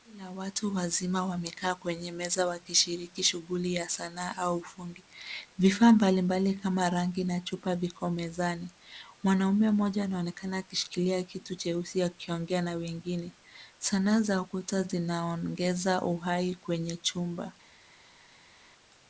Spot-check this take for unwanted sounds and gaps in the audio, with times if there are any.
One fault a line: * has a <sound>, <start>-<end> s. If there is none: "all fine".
all fine